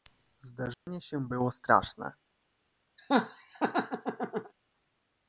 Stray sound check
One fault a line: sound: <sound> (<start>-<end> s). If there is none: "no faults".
sound: dropout (0.7-0.9 s)
sound: laugh (3.0-4.5 s)